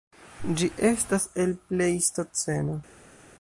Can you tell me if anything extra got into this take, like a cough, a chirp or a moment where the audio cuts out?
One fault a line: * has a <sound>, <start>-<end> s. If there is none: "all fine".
all fine